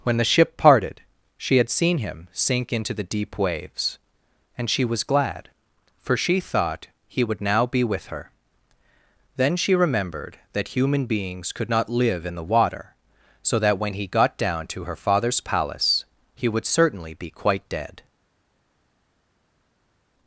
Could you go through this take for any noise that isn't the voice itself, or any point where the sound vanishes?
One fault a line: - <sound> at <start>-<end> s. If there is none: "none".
none